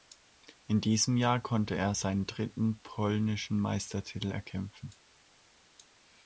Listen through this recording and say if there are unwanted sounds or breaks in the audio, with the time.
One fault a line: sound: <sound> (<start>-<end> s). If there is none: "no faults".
no faults